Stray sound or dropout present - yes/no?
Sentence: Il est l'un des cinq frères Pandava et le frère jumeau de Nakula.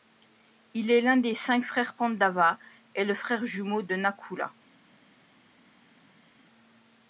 no